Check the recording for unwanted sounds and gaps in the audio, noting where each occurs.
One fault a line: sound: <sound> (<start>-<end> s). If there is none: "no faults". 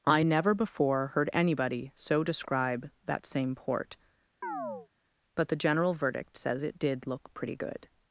sound: chirp (4.4-4.9 s)